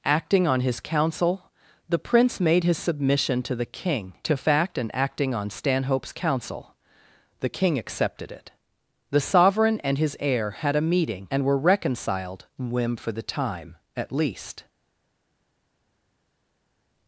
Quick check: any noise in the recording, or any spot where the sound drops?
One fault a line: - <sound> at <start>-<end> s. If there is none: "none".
none